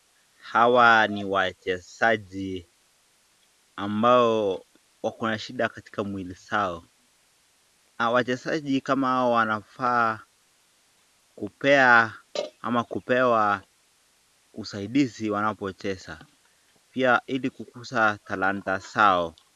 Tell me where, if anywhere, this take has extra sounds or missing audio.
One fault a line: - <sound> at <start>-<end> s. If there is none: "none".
none